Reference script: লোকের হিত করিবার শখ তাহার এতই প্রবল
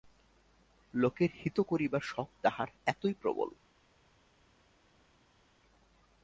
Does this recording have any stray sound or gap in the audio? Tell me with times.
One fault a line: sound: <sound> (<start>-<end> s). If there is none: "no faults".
no faults